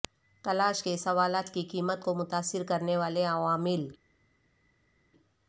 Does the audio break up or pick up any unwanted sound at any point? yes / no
no